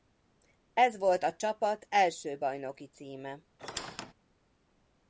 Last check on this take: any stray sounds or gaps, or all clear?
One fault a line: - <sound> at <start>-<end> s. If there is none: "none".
- squeak at 3.6-4.1 s